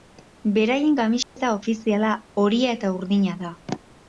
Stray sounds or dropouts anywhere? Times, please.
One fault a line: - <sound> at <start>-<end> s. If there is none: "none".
- dropout at 1.2-1.4 s